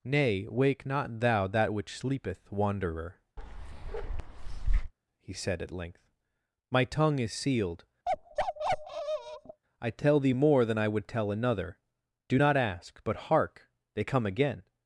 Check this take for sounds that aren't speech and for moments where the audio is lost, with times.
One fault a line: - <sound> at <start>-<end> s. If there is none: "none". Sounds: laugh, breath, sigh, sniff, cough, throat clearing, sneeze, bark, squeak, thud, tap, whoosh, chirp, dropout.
- bark at 3.4-4.9 s
- bark at 8.1-9.6 s